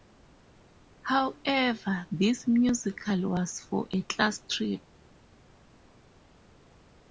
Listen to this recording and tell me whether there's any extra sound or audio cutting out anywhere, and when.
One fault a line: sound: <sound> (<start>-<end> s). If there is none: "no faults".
no faults